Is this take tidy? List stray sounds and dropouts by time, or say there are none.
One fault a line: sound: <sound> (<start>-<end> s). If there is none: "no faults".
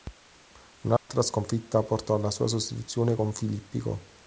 sound: dropout (1.0-1.1 s)